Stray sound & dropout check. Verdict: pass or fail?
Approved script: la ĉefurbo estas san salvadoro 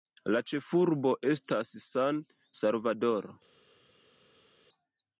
pass